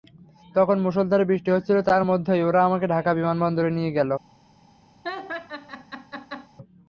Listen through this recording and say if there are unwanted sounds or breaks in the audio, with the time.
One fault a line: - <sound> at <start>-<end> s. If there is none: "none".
- laugh at 5.0-6.5 s